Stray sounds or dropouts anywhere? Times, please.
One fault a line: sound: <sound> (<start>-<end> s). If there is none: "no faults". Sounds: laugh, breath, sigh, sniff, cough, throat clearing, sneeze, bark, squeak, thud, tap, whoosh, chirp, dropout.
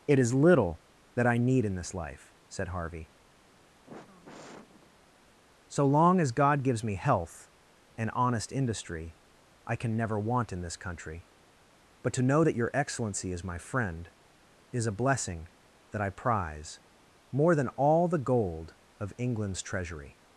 sound: sigh (3.7-5.1 s)